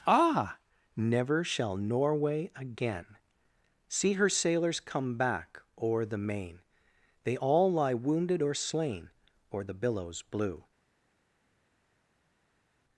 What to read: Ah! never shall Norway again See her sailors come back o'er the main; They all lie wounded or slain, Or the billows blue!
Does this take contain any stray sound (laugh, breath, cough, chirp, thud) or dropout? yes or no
no